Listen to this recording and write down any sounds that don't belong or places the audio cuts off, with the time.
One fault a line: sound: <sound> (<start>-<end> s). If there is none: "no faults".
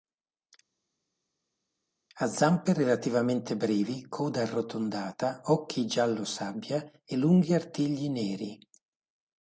no faults